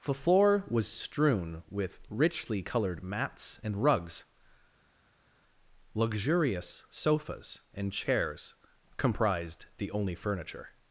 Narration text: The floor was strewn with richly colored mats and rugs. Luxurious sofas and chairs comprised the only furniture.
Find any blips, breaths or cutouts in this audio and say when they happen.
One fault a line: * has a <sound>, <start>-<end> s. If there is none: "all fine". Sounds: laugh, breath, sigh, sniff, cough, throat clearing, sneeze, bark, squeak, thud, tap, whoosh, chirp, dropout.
all fine